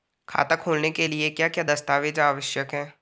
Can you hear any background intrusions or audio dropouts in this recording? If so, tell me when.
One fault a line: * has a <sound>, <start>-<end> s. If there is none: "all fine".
all fine